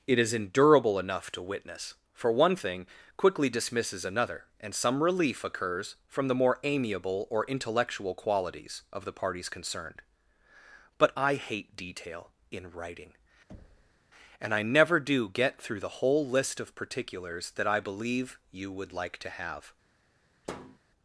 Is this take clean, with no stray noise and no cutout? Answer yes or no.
no